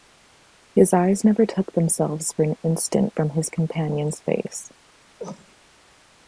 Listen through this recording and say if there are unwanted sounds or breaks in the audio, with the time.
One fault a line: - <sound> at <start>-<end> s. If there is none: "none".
- cough at 5.2-5.6 s